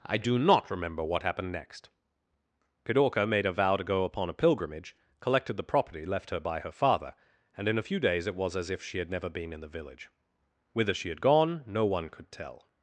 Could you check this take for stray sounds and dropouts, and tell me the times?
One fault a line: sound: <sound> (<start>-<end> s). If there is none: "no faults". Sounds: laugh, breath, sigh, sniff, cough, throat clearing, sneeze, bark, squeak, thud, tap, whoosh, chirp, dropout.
no faults